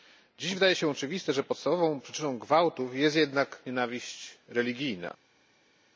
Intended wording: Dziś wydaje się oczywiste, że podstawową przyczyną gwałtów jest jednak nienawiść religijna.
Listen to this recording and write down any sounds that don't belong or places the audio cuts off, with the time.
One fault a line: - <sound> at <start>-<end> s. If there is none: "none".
none